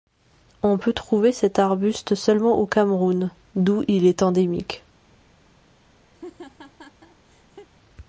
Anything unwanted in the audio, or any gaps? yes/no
yes